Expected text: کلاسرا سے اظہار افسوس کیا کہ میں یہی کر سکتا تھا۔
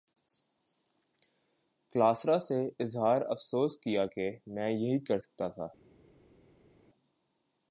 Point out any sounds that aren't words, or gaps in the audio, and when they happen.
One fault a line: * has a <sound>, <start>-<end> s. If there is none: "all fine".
all fine